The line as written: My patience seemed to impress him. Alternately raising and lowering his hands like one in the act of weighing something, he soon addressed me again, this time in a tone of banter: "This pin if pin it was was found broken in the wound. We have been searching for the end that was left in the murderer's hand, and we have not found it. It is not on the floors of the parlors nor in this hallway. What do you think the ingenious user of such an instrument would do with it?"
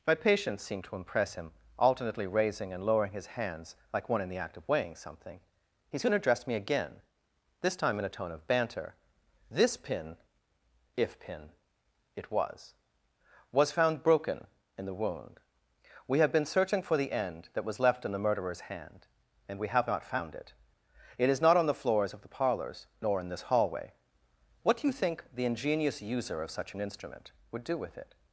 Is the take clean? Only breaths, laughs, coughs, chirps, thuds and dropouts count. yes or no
yes